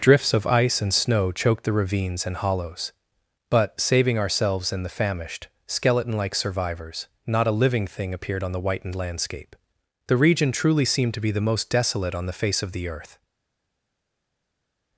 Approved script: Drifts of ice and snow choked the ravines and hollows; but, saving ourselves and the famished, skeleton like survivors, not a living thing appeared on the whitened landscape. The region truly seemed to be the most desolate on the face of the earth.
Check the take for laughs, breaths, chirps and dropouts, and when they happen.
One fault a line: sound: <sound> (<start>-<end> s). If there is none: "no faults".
no faults